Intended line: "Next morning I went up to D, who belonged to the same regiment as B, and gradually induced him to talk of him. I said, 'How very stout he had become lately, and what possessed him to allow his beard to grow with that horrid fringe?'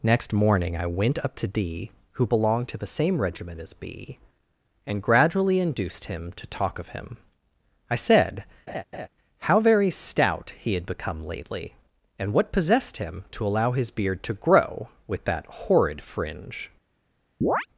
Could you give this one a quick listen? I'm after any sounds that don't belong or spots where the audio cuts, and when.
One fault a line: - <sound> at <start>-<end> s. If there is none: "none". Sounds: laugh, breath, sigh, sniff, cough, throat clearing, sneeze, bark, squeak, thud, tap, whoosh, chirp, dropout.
- laugh at 8.7-9.1 s
- chirp at 17.4-17.7 s